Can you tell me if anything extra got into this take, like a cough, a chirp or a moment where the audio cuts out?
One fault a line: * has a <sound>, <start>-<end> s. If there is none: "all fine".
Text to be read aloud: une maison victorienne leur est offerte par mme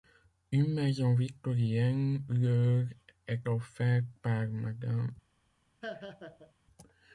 * has a laugh, 5.8-6.5 s